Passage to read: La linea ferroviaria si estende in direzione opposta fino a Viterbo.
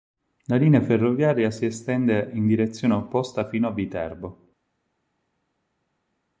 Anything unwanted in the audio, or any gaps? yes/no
no